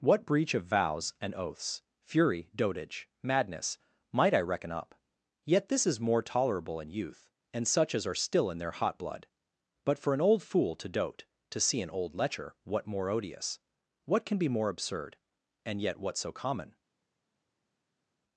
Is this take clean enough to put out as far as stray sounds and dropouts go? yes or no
yes